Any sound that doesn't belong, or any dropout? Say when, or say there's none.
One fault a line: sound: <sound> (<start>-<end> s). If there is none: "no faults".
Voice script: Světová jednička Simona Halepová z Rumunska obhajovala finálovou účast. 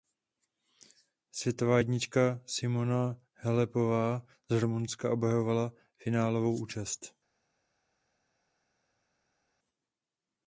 no faults